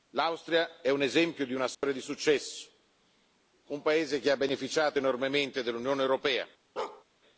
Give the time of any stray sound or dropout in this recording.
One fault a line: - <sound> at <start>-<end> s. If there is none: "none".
- dropout at 1.7-1.8 s
- bark at 6.8-7.0 s